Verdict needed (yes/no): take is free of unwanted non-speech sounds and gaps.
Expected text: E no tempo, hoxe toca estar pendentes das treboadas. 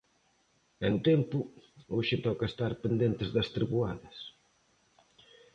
yes